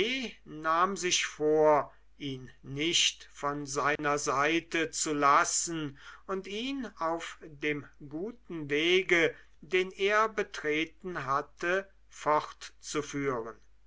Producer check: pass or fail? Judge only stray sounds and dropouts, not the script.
fail